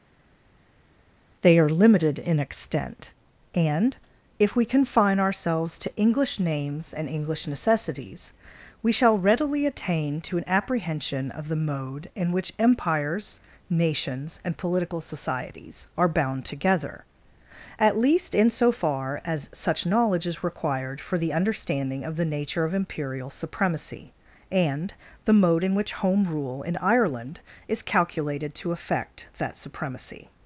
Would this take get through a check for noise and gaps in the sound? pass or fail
pass